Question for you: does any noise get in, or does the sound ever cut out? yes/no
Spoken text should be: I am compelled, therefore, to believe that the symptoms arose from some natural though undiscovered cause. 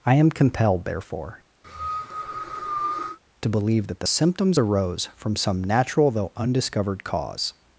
yes